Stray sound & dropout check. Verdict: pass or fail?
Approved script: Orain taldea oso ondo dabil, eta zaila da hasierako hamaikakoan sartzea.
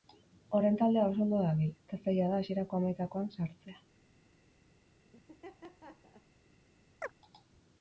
fail